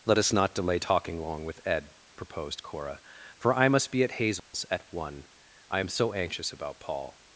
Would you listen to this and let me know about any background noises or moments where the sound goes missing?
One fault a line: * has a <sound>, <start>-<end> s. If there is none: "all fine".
* has a dropout, 4.4-4.5 s